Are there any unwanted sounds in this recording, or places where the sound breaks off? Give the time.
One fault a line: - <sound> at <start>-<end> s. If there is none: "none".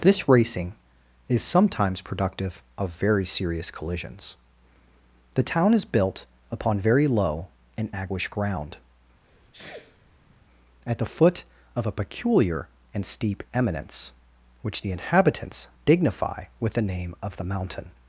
- sneeze at 9.2-10.5 s